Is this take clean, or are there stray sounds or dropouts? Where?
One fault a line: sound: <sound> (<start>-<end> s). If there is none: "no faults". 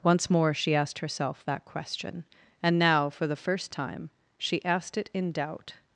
no faults